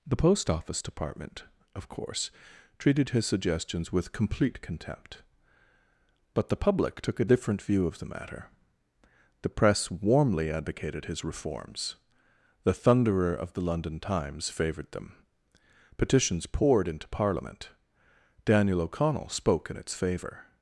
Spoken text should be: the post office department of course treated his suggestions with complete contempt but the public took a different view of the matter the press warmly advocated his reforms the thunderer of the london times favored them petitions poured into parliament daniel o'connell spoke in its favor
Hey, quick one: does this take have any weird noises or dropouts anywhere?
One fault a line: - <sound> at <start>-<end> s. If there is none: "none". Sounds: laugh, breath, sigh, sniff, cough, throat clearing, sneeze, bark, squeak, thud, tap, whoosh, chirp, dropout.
none